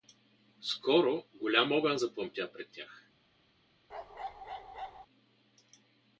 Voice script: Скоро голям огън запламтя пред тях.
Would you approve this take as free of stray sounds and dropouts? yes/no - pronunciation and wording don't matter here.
no